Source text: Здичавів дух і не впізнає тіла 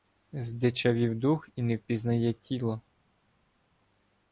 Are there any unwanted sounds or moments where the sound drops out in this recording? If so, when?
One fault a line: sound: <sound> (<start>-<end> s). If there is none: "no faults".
no faults